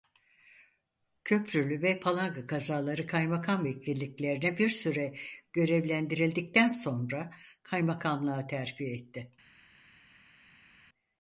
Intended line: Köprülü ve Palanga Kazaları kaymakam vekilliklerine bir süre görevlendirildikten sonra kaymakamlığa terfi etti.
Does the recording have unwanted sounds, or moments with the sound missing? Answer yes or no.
no